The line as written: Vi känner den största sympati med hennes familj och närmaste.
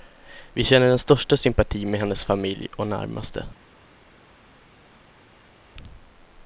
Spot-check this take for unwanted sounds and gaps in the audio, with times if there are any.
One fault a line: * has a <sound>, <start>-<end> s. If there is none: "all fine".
all fine